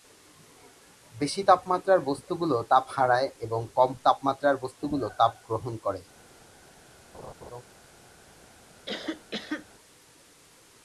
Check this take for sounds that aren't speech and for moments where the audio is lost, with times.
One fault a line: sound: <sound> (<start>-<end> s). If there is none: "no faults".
sound: laugh (7.1-7.6 s)
sound: cough (8.9-9.7 s)